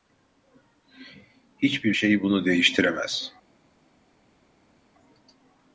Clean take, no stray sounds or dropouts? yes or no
yes